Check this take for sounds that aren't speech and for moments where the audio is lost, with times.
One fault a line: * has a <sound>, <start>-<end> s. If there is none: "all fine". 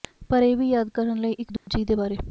* has a dropout, 1.6-1.7 s